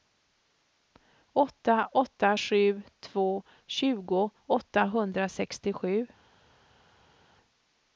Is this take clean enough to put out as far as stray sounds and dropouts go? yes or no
yes